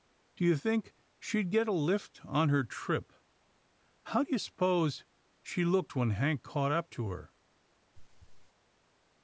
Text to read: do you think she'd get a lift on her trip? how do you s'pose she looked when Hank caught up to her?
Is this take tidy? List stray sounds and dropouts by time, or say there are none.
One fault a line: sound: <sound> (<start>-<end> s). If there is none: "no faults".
sound: throat clearing (7.9-8.5 s)